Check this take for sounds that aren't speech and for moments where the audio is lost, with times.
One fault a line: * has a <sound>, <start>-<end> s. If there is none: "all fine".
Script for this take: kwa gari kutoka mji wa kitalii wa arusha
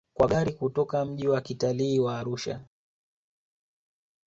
all fine